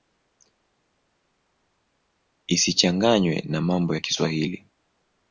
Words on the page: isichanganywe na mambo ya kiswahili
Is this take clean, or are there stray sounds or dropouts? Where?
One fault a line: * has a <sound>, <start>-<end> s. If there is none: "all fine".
all fine